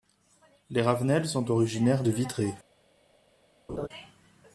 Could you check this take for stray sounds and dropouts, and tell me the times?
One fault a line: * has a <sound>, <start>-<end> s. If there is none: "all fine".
* has a laugh, 3.7-3.9 s